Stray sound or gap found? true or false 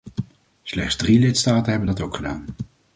false